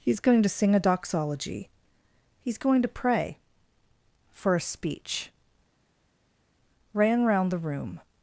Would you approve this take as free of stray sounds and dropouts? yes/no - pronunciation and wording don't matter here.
yes